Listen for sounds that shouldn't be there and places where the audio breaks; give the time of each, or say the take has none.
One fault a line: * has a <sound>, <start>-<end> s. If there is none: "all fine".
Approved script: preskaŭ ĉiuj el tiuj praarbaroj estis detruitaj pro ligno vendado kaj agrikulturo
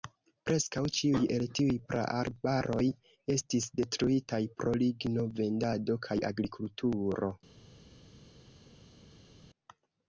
all fine